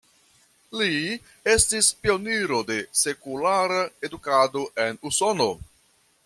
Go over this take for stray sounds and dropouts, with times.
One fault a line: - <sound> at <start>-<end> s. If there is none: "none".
none